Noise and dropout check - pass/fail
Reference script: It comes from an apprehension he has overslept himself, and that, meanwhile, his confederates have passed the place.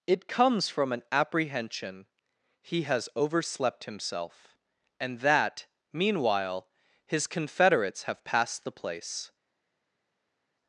pass